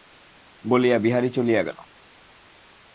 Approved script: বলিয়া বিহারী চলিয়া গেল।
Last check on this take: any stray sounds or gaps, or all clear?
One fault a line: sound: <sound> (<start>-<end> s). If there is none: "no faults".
no faults